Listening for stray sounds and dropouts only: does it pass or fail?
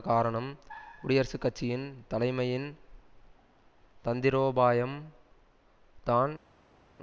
pass